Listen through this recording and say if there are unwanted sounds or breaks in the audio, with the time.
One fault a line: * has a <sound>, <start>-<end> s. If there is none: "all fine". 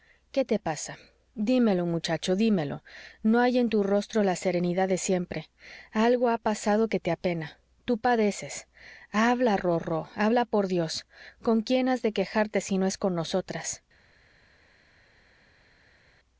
all fine